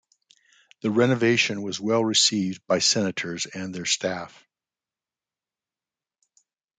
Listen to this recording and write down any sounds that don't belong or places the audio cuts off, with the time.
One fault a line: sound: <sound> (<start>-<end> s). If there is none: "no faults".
no faults